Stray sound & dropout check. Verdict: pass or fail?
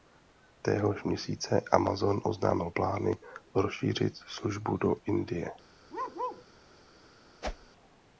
fail